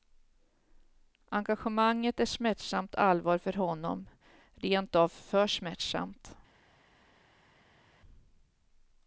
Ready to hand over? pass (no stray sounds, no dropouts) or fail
pass